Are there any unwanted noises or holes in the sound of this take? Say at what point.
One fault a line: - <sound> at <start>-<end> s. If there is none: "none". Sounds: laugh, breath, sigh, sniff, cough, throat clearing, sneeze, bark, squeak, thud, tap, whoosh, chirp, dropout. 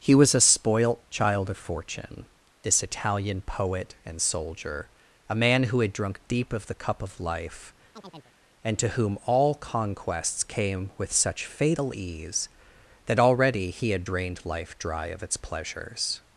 - chirp at 7.9-8.3 s